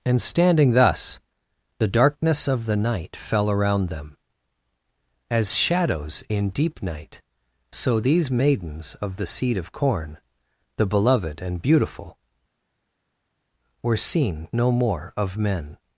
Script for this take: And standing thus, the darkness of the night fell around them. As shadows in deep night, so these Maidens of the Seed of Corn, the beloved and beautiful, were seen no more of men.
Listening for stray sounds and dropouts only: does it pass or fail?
pass